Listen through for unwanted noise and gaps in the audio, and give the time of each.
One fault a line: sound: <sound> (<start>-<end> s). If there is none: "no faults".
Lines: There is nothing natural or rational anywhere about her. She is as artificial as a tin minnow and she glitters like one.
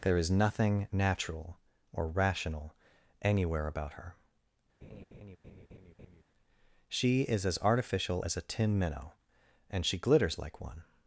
sound: laugh (4.8-6.2 s)